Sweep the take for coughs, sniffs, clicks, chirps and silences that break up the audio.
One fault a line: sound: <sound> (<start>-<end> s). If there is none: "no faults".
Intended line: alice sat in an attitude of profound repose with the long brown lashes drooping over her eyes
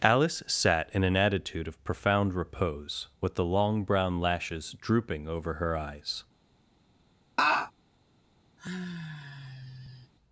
sound: laugh (7.4-7.7 s)
sound: sigh (8.6-10.1 s)